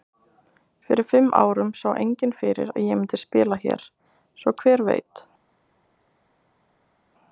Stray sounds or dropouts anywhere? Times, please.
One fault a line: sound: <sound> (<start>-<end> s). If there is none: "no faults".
no faults